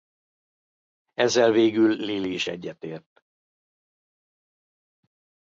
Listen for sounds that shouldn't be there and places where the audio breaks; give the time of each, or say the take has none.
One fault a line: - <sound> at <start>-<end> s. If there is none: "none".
none